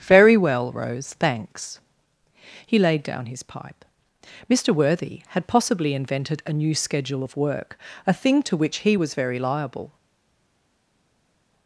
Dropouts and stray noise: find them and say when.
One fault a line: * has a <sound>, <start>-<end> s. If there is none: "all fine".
all fine